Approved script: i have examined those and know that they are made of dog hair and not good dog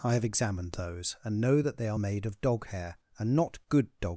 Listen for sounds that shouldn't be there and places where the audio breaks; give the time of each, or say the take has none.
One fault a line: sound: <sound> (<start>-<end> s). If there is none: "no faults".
no faults